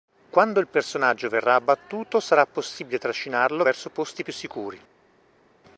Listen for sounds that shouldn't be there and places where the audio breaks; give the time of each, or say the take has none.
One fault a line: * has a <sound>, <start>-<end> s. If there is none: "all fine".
all fine